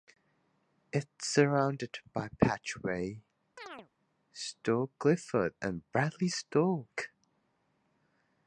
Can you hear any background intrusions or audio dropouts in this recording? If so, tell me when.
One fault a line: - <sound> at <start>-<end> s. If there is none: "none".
- chirp at 3.6-3.9 s